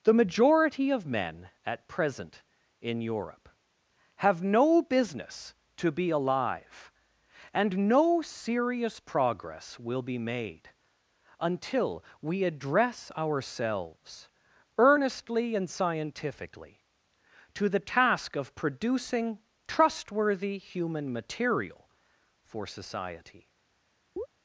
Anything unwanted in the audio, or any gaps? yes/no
yes